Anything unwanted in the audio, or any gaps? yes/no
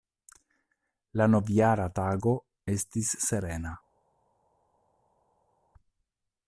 no